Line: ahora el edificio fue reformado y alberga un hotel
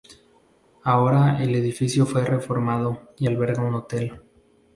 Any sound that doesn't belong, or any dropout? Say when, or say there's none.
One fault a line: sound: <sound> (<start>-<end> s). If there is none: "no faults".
no faults